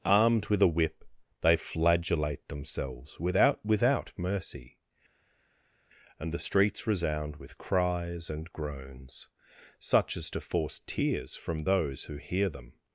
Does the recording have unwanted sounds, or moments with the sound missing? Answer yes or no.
no